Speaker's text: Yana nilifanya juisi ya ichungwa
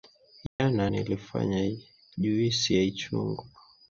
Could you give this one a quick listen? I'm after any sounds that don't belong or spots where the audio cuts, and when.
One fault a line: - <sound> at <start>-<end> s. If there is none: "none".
- dropout at 0.5-0.6 s